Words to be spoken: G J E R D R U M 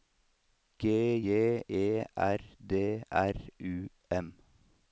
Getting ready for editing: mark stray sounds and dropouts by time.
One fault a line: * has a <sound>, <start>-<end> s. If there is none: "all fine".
all fine